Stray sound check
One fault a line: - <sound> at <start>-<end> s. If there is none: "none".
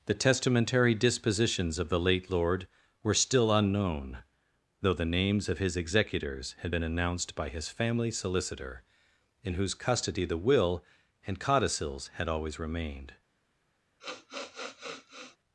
- sniff at 14.0-15.4 s